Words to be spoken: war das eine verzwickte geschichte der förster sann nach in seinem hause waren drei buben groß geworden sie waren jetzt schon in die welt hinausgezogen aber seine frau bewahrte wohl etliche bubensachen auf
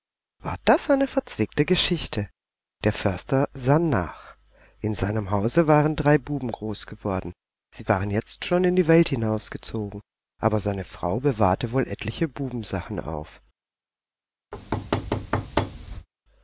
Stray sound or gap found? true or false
true